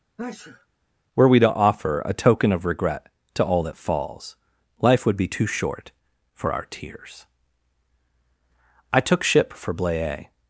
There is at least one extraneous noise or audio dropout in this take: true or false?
true